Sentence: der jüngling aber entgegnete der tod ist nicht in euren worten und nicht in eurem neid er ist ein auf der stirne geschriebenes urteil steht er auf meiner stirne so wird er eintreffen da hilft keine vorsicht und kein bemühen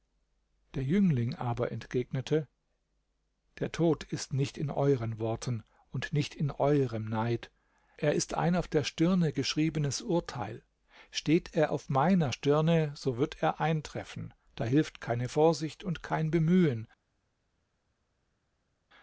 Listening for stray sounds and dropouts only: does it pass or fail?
pass